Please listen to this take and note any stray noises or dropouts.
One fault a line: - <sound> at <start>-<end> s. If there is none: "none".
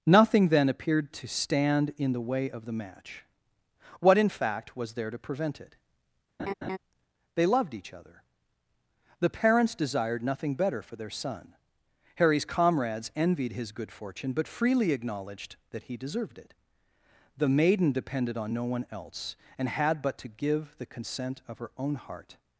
- laugh at 6.4-6.8 s